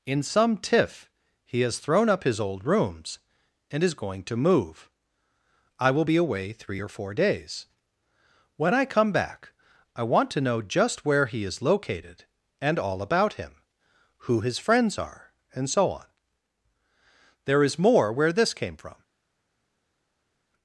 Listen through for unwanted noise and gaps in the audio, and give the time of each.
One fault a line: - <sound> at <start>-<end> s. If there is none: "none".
none